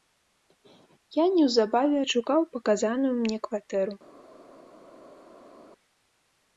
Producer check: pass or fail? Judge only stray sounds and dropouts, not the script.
pass